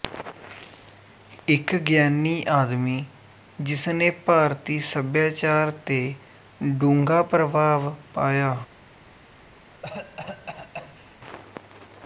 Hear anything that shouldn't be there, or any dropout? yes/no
yes